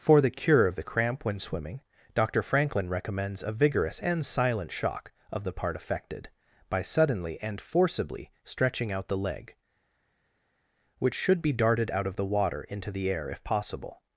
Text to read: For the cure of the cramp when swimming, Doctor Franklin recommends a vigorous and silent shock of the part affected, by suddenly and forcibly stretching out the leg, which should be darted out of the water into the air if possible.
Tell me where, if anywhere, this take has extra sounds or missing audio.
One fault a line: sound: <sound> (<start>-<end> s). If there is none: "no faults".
no faults